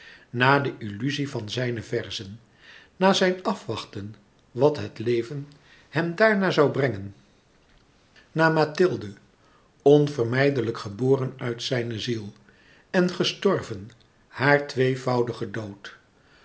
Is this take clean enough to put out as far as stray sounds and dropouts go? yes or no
yes